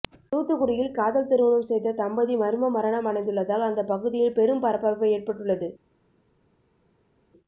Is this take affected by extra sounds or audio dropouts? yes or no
no